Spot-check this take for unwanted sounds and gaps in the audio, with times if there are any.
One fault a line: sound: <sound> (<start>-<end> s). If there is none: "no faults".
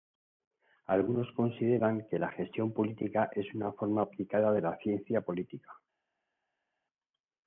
no faults